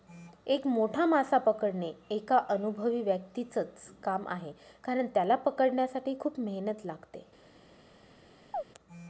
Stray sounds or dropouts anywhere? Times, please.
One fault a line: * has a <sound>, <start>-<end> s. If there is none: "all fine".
* has a chirp, 8.5-8.6 s